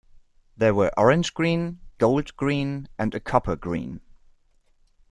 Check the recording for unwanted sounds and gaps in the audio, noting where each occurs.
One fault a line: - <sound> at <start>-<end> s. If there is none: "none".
none